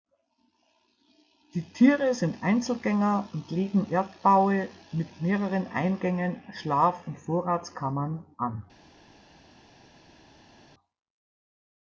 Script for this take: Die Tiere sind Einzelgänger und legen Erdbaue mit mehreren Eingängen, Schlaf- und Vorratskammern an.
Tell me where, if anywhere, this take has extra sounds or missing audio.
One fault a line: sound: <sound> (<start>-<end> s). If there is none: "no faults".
no faults